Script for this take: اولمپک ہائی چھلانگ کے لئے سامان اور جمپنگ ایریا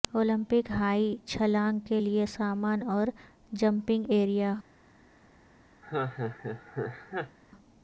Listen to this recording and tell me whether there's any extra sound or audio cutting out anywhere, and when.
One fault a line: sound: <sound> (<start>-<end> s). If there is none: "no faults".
sound: laugh (5.8-7.4 s)